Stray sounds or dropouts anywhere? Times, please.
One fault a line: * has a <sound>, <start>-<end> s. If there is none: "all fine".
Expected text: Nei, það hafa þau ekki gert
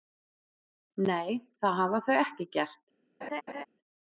* has a laugh, 3.2-3.7 s